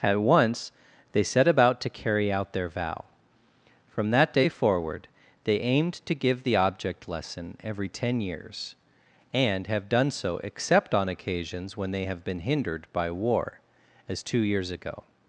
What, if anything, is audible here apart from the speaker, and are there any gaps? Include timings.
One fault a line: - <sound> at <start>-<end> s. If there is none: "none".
none